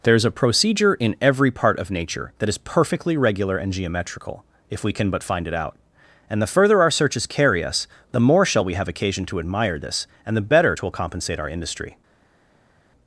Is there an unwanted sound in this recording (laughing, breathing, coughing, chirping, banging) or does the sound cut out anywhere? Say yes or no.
no